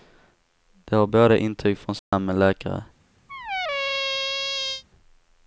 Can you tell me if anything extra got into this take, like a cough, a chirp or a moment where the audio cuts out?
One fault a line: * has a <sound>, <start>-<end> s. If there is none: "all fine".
* has a dropout, 2.0-2.1 s
* has a squeak, 3.3-4.8 s